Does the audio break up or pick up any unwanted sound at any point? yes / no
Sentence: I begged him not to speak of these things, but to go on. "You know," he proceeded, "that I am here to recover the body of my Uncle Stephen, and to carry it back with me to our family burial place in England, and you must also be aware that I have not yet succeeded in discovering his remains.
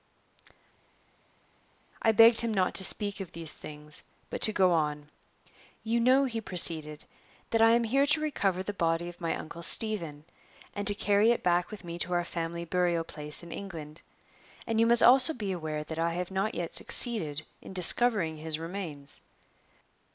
no